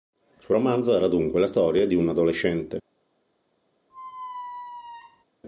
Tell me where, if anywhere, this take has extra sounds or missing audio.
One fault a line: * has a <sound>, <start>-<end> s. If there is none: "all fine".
* has a squeak, 3.9-5.2 s